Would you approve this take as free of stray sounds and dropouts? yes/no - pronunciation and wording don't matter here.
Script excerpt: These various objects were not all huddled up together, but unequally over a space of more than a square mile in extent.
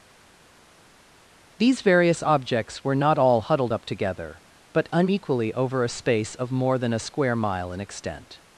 yes